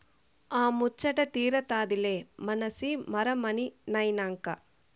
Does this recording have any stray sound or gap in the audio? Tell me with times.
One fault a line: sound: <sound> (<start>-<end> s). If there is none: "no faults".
no faults